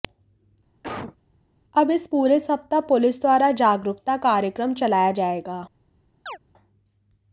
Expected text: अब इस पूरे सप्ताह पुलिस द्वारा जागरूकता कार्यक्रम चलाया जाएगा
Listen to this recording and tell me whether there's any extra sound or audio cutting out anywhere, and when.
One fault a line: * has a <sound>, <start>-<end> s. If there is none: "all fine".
* has a cough, 0.8-1.2 s
* has a chirp, 6.3-6.4 s